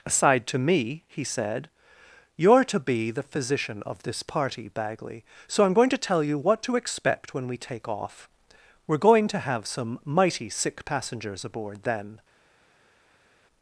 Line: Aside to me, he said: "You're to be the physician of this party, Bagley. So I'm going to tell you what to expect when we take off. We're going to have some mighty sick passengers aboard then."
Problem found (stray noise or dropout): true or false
false